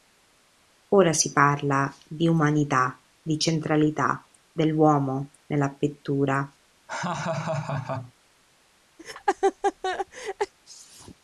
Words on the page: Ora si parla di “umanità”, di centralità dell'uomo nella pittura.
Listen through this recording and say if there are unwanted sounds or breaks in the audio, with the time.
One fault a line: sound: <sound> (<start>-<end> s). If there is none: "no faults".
sound: laugh (6.9-8.1 s)
sound: laugh (9.0-10.5 s)